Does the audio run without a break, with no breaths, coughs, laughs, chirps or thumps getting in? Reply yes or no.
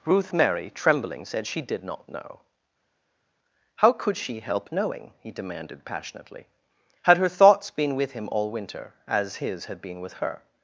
yes